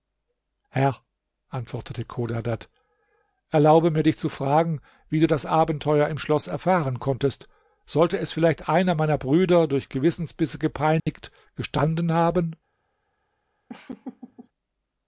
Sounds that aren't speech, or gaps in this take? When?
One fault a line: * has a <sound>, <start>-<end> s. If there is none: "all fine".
* has a dropout, 11.0-11.1 s
* has a laugh, 13.7-14.5 s